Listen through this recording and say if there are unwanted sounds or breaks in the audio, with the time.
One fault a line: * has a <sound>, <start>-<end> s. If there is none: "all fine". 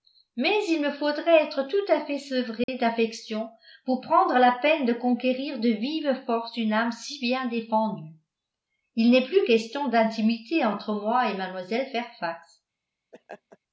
* has a dropout, 2.6-2.7 s
* has a laugh, 13.1-13.6 s